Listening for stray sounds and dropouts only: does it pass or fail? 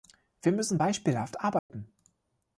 fail